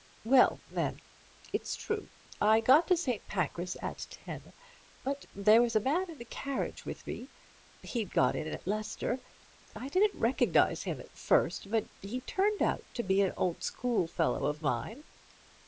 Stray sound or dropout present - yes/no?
no